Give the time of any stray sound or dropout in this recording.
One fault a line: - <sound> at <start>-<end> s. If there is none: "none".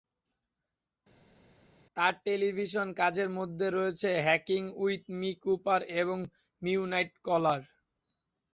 none